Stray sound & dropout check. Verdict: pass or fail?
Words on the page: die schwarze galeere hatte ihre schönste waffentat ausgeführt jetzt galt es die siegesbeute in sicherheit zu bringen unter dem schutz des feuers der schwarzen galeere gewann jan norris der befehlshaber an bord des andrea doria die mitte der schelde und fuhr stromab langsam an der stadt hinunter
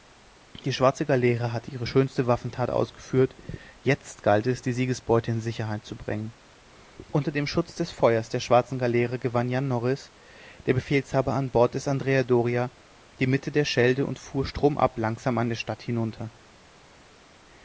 pass